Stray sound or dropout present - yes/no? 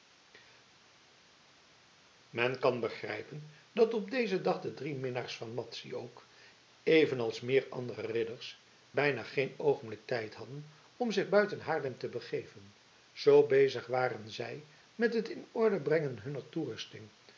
no